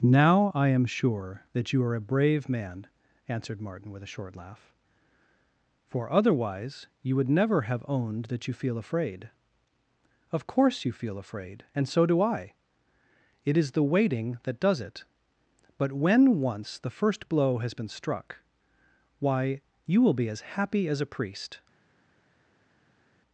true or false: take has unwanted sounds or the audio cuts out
false